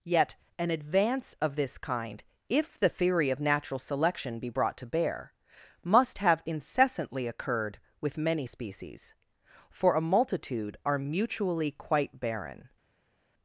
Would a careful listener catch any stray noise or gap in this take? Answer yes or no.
no